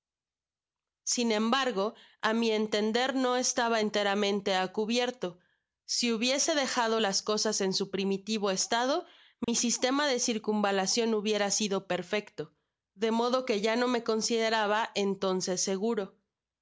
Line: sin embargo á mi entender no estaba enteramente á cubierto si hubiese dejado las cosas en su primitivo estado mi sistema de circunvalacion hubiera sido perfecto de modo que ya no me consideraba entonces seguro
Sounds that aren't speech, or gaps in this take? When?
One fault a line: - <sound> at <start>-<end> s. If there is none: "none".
- dropout at 9.4-9.5 s